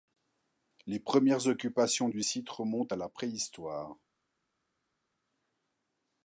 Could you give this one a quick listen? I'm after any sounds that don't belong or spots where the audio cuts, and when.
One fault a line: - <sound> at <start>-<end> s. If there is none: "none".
none